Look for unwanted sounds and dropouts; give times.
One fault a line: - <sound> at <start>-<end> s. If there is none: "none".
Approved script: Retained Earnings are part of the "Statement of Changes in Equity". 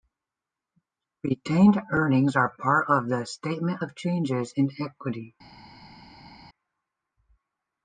none